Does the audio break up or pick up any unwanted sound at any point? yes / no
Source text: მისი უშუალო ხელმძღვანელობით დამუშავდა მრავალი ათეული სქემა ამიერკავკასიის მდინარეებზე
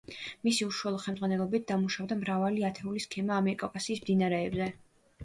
no